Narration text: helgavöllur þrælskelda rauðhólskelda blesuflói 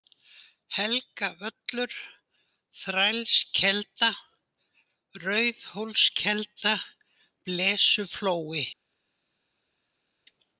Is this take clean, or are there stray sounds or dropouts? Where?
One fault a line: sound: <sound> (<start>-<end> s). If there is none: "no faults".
no faults